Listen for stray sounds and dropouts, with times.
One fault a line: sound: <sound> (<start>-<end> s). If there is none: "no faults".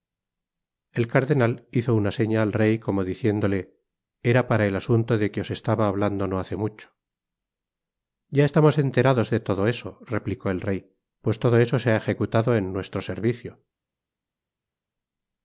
no faults